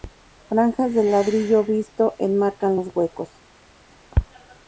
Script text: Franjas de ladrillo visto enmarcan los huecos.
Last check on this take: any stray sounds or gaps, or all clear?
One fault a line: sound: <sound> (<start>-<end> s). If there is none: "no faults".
no faults